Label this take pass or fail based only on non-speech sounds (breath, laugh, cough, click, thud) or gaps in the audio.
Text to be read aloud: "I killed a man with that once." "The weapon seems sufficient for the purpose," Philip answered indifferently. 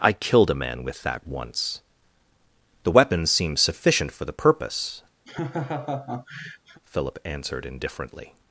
fail